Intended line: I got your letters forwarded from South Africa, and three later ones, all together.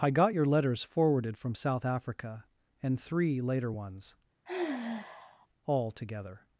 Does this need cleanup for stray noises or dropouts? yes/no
yes